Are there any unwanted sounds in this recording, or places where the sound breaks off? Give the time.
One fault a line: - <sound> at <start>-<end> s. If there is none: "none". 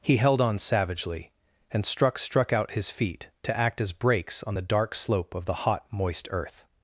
none